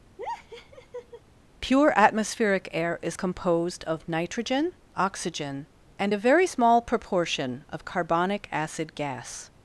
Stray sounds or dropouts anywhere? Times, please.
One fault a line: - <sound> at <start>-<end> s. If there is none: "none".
- laugh at 0.2-1.2 s